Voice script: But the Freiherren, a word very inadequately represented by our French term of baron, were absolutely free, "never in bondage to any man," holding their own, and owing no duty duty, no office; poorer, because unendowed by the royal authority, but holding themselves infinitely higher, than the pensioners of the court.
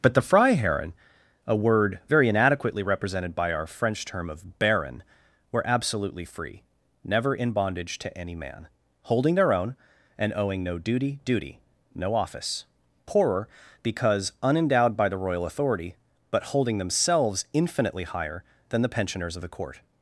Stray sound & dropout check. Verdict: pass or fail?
pass